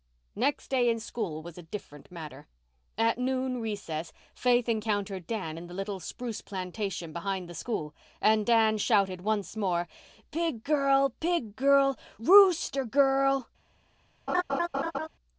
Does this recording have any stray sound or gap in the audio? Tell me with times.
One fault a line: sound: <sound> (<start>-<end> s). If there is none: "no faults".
sound: laugh (14.3-15.1 s)